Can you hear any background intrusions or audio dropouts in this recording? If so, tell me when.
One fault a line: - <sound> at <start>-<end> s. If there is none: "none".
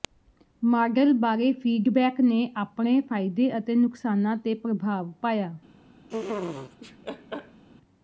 - laugh at 6.1-7.6 s